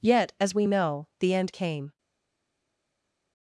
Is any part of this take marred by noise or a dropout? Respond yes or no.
no